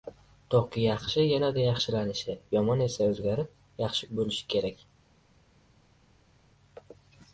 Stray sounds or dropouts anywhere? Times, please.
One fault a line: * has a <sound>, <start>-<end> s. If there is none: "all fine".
all fine